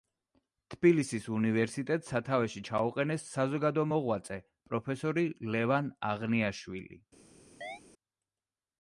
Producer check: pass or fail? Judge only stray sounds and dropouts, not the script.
fail